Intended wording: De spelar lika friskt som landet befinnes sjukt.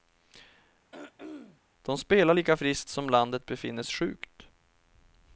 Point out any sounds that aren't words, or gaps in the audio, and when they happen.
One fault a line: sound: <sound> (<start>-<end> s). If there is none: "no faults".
sound: throat clearing (0.9-1.6 s)